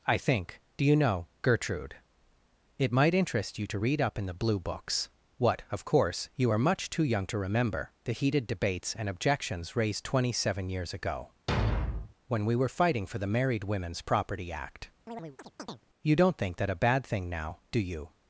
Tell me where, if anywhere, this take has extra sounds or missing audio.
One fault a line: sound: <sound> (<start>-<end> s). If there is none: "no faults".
sound: thud (11.5-12.1 s)
sound: chirp (15.1-15.8 s)